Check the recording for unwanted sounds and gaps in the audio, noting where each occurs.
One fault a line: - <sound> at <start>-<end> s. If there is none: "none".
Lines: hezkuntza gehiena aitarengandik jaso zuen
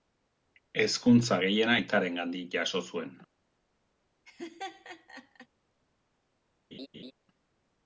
- laugh at 4.3-5.5 s
- laugh at 6.7-7.1 s